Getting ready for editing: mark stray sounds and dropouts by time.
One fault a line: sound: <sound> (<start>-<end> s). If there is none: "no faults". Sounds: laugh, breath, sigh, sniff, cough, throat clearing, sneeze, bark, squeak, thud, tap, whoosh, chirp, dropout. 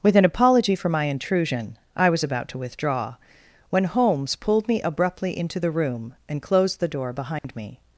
sound: dropout (7.4-7.4 s)